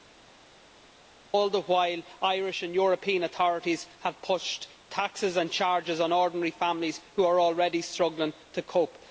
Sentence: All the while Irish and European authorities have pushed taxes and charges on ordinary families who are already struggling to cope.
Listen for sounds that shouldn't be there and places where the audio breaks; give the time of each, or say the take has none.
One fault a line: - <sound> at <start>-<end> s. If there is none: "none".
none